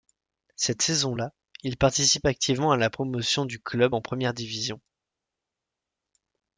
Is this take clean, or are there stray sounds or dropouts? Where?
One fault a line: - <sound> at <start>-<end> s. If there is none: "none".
none